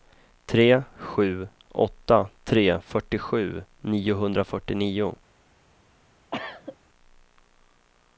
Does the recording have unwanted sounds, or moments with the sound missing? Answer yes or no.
yes